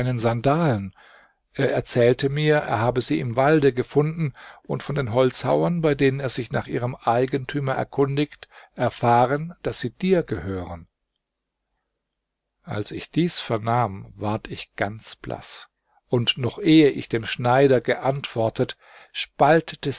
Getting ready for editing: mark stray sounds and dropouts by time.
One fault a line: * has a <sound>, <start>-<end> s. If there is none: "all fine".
all fine